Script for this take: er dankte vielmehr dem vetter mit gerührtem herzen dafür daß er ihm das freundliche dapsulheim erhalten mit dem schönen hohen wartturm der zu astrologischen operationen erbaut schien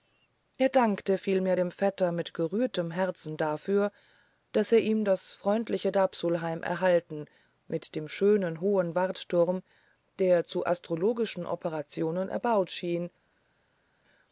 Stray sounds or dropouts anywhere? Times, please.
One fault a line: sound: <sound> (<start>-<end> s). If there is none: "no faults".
no faults